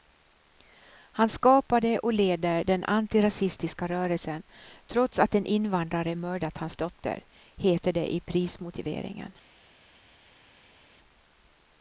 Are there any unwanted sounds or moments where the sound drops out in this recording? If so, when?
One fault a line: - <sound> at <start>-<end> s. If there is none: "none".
none